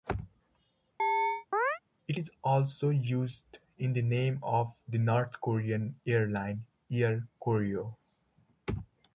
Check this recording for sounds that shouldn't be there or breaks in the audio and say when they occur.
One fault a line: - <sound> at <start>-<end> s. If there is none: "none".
- chirp at 1.0-1.8 s